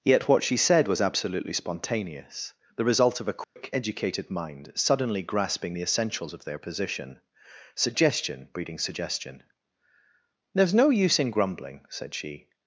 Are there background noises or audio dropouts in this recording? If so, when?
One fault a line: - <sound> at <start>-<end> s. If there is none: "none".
- dropout at 3.4-3.6 s